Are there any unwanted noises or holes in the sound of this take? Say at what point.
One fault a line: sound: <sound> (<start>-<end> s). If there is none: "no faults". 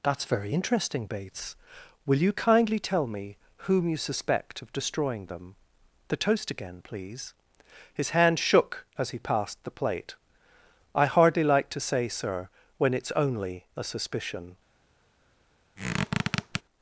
sound: squeak (15.8-16.6 s)